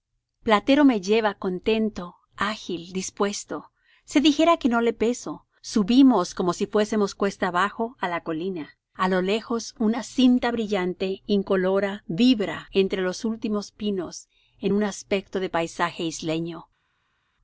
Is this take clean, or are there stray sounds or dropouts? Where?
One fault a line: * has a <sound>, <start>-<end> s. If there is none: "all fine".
all fine